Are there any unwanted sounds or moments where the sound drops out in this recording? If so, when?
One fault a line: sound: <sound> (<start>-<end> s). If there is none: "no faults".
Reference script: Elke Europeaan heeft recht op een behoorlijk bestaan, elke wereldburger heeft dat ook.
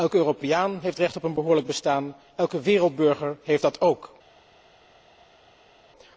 no faults